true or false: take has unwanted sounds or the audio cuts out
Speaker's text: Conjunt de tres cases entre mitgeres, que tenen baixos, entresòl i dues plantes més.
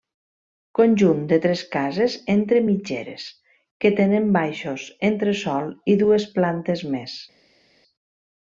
false